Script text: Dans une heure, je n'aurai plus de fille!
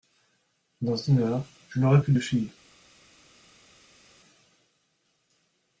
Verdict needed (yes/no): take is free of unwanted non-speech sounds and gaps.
yes